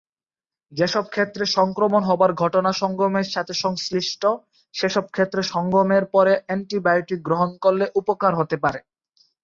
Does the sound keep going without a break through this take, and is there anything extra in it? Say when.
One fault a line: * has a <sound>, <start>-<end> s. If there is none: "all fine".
all fine